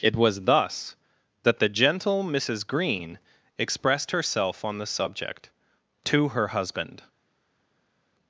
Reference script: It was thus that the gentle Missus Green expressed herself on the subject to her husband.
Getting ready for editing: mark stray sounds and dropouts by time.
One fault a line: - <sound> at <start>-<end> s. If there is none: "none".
none